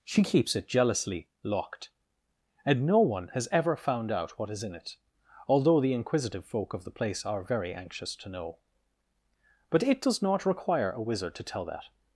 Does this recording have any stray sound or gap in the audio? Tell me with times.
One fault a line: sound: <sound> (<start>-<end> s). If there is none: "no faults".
no faults